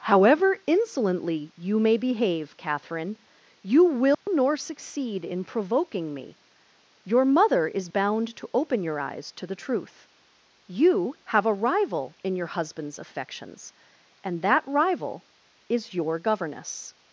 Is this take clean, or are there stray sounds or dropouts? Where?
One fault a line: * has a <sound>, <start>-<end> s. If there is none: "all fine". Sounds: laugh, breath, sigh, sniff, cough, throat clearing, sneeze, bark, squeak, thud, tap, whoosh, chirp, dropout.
* has a dropout, 4.1-4.3 s